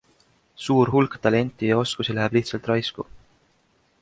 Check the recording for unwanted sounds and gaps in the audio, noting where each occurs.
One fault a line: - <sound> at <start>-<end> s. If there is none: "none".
none